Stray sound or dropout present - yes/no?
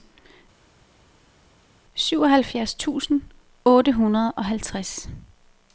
no